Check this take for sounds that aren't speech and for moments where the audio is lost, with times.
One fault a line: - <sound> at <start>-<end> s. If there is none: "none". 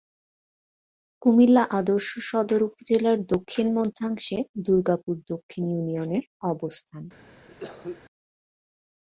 - cough at 7.5-8.0 s